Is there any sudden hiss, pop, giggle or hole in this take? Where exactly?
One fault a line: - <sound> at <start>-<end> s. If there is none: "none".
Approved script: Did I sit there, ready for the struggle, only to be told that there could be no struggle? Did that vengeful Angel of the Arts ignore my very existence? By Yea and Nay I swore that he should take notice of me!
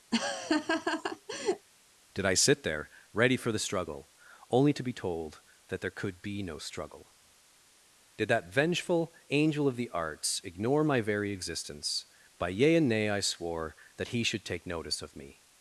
- laugh at 0.1-1.7 s